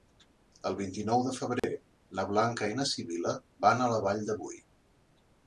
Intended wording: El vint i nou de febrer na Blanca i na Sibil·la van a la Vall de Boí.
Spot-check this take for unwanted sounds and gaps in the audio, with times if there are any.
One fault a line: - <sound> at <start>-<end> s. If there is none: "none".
- dropout at 1.6-1.6 s